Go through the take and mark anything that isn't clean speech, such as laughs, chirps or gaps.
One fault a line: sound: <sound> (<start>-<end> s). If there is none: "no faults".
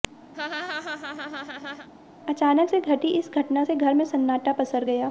sound: laugh (0.3-1.9 s)